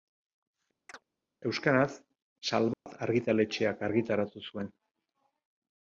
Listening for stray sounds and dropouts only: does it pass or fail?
fail